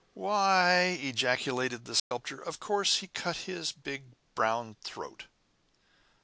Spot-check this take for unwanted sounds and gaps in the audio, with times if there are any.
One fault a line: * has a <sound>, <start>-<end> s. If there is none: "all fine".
* has a dropout, 2.0-2.1 s